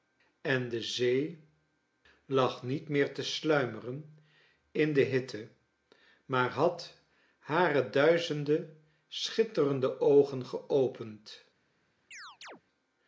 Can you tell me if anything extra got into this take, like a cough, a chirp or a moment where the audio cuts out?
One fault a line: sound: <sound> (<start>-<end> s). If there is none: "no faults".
sound: chirp (12.1-12.6 s)